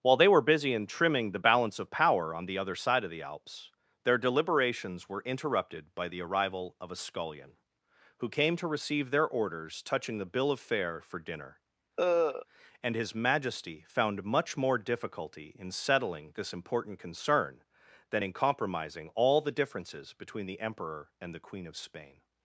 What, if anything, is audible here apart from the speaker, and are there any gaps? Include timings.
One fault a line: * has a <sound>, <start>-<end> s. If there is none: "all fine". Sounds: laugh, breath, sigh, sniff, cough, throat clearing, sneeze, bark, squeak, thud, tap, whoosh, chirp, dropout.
* has a cough, 12.0-12.5 s